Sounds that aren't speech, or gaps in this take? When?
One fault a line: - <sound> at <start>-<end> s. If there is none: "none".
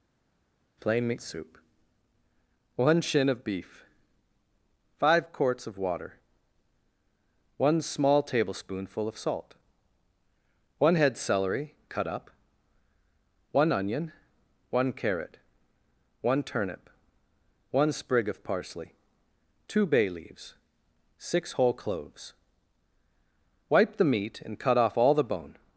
none